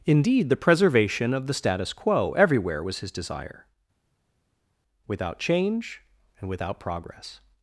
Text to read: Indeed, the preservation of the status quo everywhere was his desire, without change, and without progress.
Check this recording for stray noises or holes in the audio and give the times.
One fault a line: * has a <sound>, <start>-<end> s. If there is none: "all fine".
all fine